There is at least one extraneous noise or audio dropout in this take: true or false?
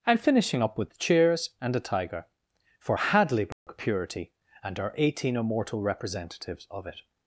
true